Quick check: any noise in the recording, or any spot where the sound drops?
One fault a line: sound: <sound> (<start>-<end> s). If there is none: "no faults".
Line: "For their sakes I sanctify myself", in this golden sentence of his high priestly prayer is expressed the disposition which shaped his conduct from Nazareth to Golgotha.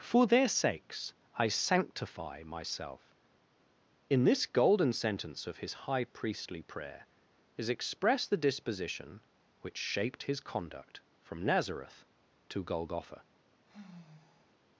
sound: sigh (13.7-14.6 s)